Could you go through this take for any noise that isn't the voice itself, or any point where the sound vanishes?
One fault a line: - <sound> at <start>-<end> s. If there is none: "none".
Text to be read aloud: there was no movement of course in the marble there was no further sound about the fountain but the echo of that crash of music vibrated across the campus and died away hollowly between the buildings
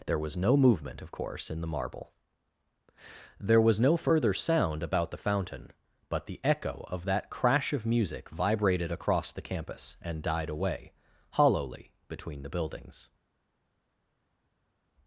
none